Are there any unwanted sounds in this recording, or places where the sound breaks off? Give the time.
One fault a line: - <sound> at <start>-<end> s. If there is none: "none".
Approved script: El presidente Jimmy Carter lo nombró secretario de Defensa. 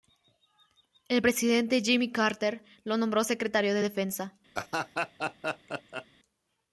- laugh at 4.5-6.1 s